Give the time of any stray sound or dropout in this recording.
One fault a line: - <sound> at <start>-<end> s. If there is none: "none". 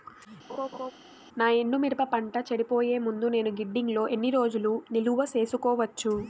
- laugh at 0.5-0.9 s